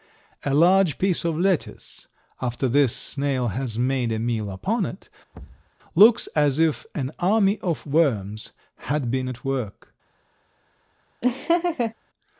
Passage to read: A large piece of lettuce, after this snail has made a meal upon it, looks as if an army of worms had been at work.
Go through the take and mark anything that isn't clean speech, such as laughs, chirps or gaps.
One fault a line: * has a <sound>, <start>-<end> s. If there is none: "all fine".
* has a thud, 5.3-5.7 s
* has a laugh, 11.2-11.9 s